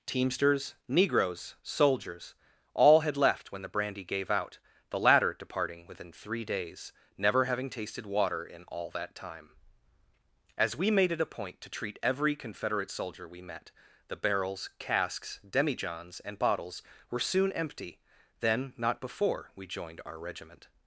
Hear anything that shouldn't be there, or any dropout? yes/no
no